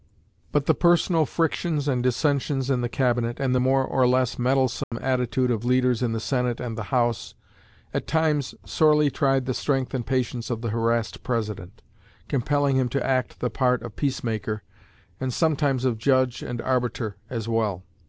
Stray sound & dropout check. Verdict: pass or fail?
fail